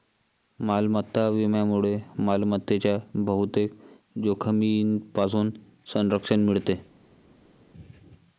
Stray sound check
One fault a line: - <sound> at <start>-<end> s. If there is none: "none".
none